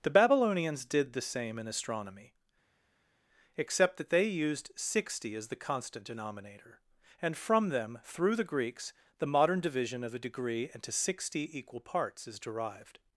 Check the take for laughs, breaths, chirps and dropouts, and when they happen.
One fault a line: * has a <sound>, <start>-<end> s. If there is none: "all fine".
all fine